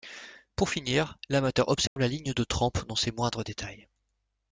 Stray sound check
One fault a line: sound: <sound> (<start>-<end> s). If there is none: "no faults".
sound: dropout (1.9-2.0 s)